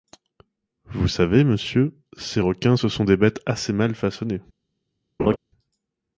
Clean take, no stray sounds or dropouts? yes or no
no